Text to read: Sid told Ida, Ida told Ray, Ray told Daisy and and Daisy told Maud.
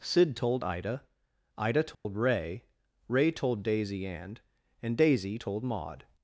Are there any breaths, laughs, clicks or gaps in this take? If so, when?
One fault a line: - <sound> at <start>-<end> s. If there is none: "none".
- dropout at 1.9-2.1 s